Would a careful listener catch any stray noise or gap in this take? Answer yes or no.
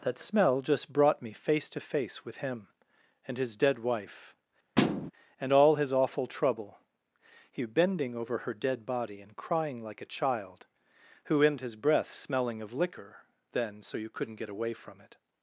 yes